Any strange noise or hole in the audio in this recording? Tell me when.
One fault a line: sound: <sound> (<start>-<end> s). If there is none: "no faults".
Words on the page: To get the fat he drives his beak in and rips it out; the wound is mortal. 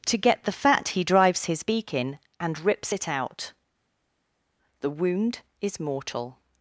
no faults